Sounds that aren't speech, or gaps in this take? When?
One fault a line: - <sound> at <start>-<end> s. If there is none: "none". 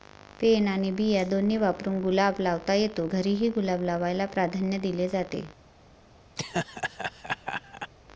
- laugh at 6.4-7.9 s